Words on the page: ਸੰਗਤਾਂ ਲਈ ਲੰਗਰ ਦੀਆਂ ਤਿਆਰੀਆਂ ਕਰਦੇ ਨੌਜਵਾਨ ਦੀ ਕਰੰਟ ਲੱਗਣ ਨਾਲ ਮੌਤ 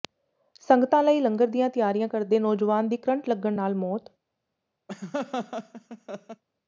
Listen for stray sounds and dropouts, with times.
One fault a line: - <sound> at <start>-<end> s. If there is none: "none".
- laugh at 4.9-6.4 s